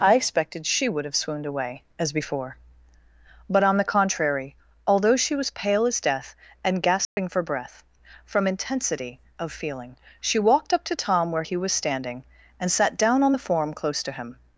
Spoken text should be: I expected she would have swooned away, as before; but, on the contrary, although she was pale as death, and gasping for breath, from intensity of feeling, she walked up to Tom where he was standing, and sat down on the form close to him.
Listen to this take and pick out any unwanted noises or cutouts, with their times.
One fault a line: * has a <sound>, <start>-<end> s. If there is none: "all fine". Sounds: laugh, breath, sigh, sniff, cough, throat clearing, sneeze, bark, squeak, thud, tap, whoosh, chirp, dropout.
* has a dropout, 7.0-7.2 s